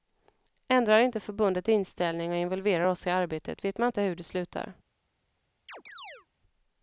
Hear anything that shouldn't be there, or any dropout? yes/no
yes